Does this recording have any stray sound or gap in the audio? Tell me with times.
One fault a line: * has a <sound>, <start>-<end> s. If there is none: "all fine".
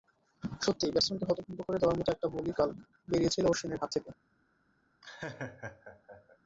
* has a laugh, 5.0-6.4 s